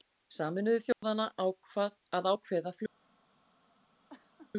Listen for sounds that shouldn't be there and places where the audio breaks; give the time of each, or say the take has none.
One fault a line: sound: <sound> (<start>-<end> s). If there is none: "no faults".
sound: dropout (0.9-1.0 s)
sound: laugh (4.1-4.5 s)